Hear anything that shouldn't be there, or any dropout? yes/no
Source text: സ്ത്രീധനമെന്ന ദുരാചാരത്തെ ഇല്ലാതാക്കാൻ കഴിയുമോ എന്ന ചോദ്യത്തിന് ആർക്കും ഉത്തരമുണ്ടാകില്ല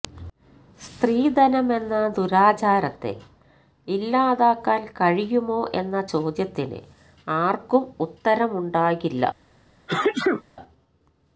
yes